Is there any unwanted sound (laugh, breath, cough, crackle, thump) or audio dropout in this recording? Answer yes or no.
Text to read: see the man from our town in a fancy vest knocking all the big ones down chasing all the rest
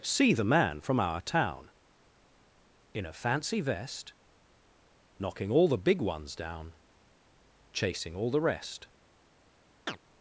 yes